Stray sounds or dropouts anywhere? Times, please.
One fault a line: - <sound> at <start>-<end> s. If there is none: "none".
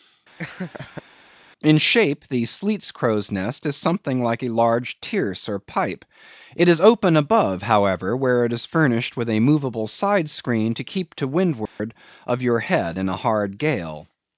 - laugh at 0.4-1.0 s
- dropout at 11.7-11.8 s